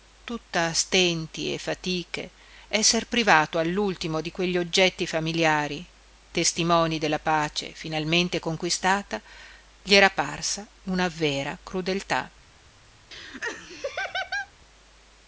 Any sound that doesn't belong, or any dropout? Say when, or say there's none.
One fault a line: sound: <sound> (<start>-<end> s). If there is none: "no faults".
sound: laugh (13.1-14.5 s)